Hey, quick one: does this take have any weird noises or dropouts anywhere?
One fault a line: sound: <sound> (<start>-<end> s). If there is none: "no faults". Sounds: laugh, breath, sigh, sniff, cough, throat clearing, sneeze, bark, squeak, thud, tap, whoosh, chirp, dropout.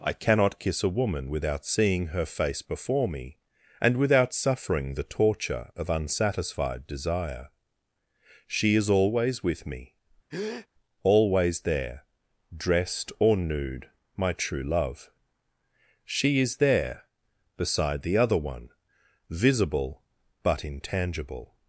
sound: breath (10.3-10.7 s)